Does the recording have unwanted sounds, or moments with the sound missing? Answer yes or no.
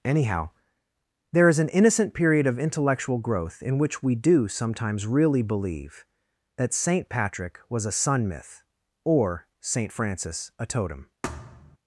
yes